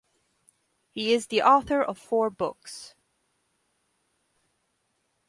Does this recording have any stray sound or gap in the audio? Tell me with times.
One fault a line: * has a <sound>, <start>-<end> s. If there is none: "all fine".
all fine